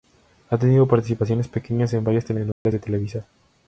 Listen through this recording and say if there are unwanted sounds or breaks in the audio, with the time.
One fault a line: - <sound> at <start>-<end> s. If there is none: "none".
- dropout at 2.5-2.7 s